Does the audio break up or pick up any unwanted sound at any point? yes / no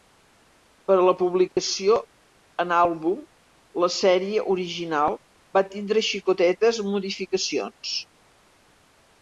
yes